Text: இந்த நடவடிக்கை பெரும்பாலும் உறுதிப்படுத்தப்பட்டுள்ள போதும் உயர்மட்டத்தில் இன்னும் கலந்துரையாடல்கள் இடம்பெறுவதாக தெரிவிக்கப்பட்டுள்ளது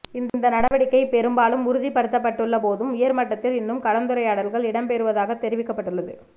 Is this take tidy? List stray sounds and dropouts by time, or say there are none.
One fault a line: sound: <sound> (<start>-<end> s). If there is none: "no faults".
sound: dropout (0.7-0.7 s)